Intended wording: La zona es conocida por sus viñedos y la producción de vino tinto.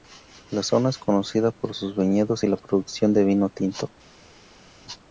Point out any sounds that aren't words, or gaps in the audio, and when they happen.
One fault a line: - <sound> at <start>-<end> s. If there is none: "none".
none